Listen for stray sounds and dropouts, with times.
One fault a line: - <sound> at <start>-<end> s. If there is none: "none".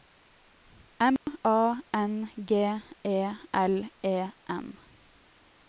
- dropout at 1.2-1.3 s